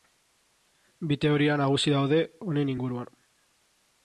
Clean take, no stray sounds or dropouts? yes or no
yes